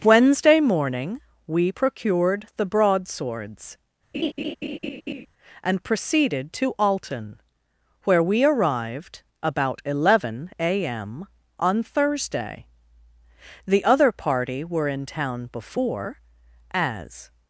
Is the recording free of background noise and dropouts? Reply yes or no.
no